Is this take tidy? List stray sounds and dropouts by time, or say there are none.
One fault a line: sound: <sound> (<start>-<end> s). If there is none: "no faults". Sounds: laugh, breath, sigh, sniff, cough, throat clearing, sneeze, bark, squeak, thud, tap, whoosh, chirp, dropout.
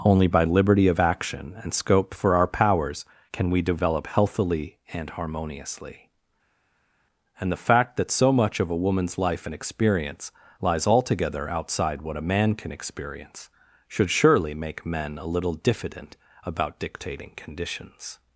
no faults